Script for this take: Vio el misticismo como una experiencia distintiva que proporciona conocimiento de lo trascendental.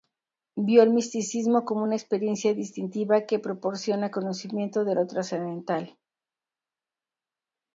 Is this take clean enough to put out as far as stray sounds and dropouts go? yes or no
yes